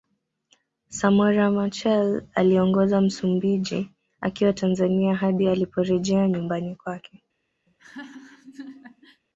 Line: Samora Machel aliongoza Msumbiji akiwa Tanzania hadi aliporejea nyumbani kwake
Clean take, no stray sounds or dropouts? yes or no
no